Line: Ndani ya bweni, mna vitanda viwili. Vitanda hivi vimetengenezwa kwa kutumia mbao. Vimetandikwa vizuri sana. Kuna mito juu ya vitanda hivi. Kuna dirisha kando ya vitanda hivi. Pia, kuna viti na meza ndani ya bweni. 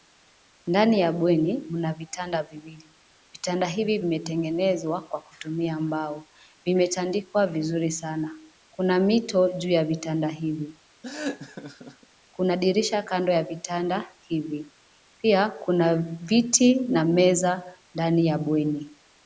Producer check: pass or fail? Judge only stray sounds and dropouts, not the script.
fail